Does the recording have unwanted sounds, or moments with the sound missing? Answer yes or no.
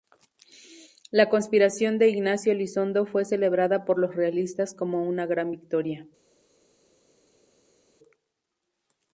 no